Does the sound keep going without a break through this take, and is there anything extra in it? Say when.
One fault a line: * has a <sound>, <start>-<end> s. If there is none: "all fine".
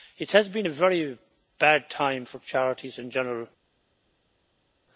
all fine